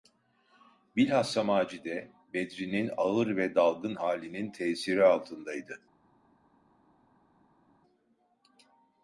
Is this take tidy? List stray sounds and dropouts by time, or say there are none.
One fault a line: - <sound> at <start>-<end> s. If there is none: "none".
none